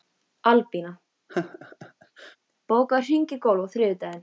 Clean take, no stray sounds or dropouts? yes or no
no